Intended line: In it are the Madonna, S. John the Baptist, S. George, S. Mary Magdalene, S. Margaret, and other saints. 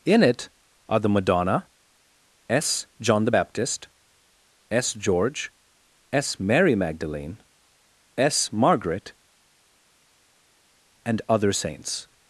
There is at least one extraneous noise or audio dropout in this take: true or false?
false